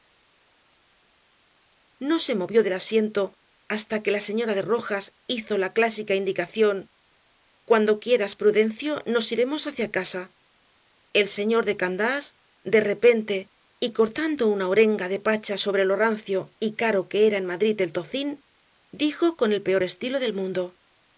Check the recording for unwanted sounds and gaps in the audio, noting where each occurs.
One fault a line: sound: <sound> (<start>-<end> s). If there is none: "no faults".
no faults